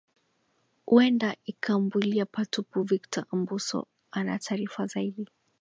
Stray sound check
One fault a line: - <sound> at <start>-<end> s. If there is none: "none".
none